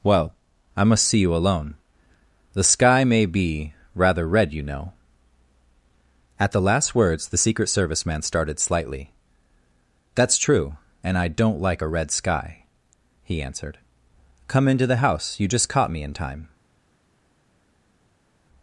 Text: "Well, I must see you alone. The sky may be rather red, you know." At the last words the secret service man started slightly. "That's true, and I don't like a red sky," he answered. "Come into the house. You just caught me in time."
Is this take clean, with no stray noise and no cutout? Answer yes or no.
yes